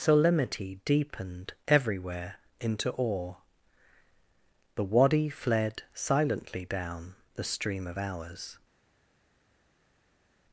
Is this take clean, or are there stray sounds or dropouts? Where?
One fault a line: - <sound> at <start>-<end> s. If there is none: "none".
none